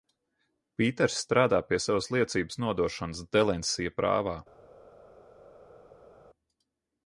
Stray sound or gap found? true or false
false